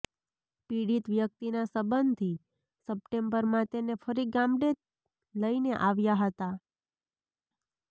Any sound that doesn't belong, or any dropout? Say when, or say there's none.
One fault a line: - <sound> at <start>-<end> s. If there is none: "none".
none